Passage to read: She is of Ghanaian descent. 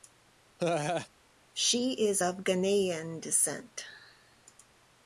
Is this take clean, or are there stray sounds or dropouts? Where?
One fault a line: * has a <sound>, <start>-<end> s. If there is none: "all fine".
* has a laugh, 0.6-1.1 s